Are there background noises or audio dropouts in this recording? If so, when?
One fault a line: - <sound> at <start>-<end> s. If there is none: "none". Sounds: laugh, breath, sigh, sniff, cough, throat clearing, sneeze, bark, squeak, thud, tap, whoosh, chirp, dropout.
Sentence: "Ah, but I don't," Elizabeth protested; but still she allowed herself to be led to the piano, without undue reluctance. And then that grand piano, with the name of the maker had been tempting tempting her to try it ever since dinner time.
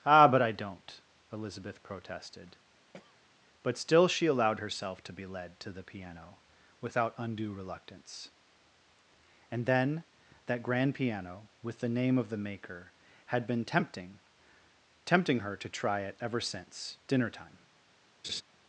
- throat clearing at 2.9-3.3 s
- laugh at 18.2-18.4 s